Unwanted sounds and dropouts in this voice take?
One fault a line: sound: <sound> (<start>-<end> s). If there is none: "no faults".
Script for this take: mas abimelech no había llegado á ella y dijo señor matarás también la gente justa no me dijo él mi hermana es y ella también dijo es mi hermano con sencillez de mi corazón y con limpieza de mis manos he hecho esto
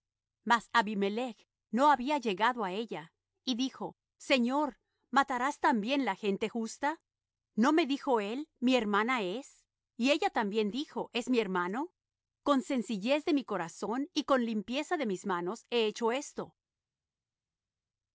no faults